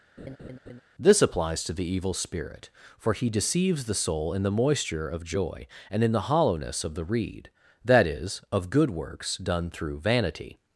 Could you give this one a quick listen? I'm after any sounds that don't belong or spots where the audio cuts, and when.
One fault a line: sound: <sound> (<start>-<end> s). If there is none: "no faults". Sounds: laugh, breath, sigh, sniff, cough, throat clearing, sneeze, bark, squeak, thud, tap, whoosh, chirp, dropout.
sound: laugh (0.2-0.8 s)